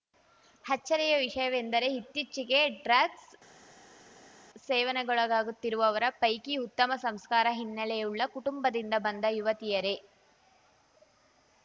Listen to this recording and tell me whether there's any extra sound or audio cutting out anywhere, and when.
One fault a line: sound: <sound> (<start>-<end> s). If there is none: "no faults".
no faults